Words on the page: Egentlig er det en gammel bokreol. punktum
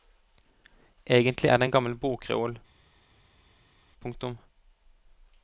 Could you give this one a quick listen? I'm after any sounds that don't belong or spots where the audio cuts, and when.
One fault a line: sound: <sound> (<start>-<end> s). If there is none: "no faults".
no faults